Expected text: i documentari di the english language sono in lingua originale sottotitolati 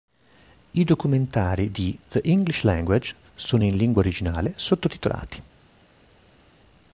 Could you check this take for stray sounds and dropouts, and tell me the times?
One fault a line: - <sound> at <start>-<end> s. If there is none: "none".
none